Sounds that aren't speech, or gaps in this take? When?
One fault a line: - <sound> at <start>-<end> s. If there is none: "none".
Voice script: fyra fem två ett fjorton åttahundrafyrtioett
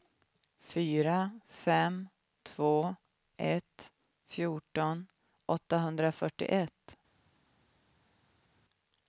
none